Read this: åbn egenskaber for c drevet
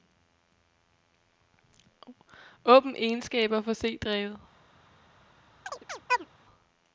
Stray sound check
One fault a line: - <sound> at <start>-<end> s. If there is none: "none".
- chirp at 5.7-6.3 s